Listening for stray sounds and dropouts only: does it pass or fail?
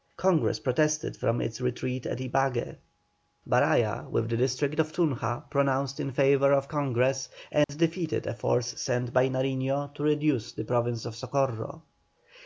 fail